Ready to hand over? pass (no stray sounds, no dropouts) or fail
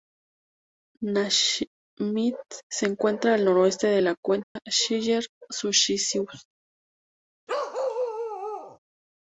fail